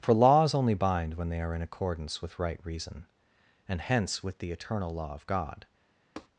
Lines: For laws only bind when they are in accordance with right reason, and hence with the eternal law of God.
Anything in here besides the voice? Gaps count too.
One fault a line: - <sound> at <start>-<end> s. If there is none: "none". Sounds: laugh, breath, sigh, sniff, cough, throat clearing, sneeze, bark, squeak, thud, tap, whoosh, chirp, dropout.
- tap at 6.2-6.3 s